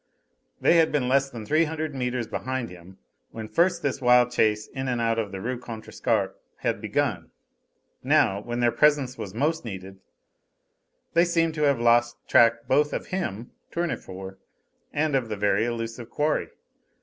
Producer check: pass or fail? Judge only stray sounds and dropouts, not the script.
pass